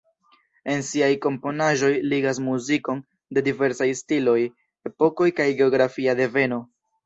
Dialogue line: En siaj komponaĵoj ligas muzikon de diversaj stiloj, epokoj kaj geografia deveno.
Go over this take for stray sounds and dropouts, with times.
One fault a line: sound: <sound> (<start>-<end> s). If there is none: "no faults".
no faults